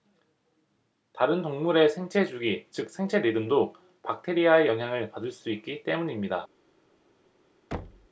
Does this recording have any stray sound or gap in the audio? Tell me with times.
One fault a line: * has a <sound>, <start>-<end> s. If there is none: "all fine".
* has a thud, 7.7-8.1 s